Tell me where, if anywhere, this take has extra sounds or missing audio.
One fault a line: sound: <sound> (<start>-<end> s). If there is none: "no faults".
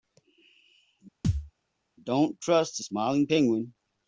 sound: thud (1.2-1.5 s)